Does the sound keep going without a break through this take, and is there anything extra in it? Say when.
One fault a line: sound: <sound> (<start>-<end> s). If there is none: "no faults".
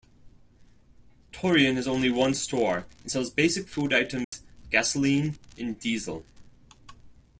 sound: dropout (4.2-4.3 s)